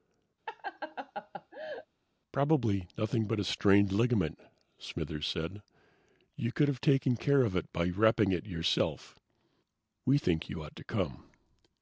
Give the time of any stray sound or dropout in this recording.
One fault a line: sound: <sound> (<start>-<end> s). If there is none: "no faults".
sound: laugh (0.5-1.9 s)